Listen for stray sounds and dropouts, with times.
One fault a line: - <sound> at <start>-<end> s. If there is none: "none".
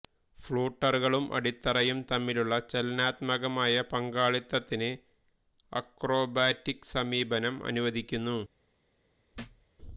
- thud at 9.3-9.7 s